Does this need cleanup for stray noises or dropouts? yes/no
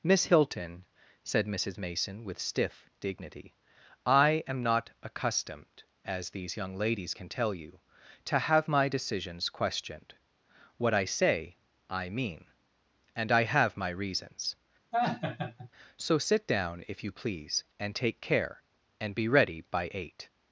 yes